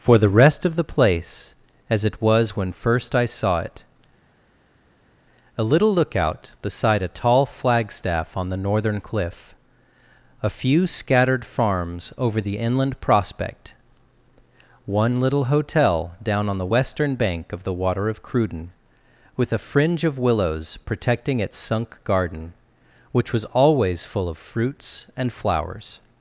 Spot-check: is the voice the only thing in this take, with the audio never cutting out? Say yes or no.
yes